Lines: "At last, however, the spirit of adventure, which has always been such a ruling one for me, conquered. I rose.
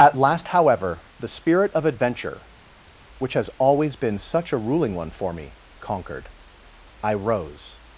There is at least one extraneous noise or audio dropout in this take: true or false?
false